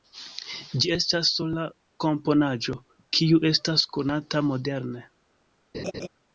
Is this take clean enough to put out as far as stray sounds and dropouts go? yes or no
no